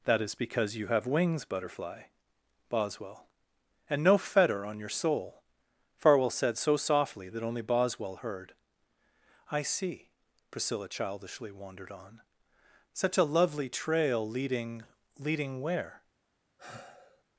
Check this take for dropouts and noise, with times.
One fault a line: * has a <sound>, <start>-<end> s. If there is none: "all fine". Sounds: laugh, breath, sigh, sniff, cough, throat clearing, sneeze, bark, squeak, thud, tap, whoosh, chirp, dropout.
* has a sigh, 16.6-17.2 s